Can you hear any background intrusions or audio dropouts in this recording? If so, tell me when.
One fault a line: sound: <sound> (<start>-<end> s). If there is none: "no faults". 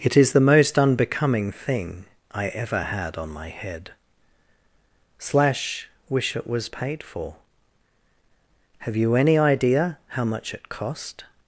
no faults